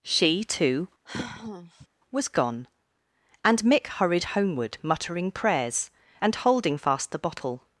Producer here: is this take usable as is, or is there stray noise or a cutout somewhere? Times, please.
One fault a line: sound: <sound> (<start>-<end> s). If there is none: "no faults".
sound: sigh (1.1-1.9 s)